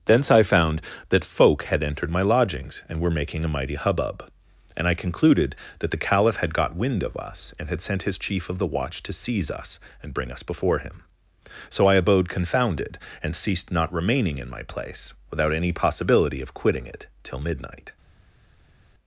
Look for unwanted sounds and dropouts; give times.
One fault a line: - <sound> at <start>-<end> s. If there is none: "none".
none